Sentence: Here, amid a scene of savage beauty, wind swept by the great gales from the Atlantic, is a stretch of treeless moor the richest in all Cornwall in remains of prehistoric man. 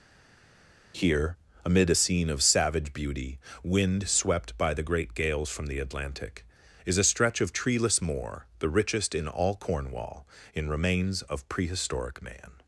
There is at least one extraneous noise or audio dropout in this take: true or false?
false